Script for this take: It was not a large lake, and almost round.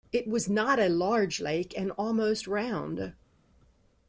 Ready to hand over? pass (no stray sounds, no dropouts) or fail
pass